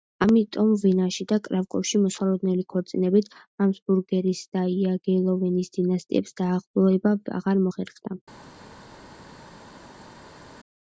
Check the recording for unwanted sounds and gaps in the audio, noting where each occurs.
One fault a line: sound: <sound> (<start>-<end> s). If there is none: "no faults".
no faults